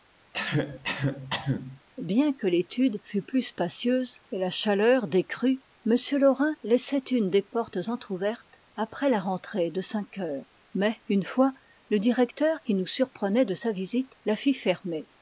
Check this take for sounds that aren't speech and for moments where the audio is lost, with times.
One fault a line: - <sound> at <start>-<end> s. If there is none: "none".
- cough at 0.3-1.8 s